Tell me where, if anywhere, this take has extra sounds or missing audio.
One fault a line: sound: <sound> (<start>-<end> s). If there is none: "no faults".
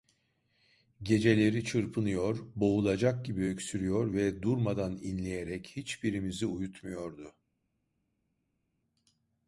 no faults